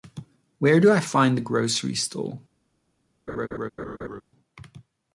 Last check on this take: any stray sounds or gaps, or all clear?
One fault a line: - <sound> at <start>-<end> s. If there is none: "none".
- laugh at 3.3-4.2 s